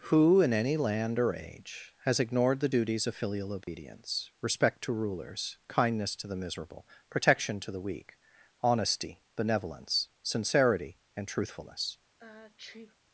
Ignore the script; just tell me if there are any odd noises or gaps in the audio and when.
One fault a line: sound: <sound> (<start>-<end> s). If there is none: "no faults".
sound: dropout (3.6-3.7 s)
sound: sneeze (12.2-13.0 s)